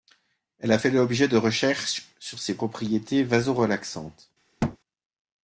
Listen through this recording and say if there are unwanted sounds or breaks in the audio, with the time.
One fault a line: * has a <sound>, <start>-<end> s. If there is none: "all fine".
* has a thud, 4.6-4.8 s